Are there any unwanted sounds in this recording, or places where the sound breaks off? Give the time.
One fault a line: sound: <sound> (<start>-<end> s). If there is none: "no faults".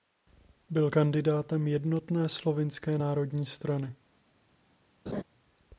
sound: laugh (5.1-5.2 s)